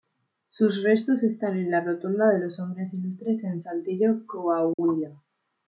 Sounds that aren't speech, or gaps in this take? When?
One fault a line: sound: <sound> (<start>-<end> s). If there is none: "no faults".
sound: dropout (4.7-4.8 s)